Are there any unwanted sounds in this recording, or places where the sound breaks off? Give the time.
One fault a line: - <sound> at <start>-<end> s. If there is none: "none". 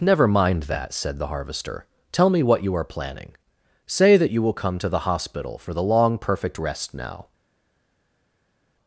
none